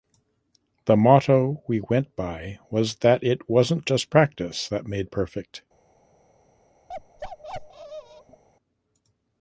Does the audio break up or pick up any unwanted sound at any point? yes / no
yes